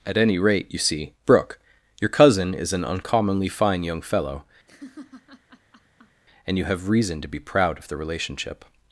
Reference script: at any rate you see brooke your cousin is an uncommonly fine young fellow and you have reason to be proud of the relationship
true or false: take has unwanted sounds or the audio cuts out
true